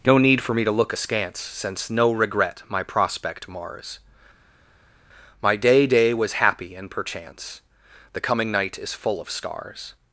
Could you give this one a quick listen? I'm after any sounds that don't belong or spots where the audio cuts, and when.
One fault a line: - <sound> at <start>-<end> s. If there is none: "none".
none